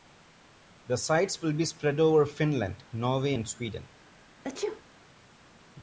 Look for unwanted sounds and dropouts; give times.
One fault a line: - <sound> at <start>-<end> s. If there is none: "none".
- sneeze at 4.4-4.8 s